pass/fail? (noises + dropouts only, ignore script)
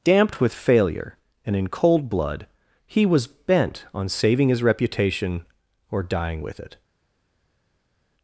pass